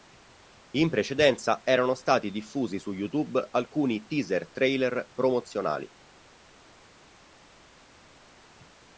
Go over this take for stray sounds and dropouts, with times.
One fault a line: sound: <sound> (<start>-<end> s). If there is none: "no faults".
no faults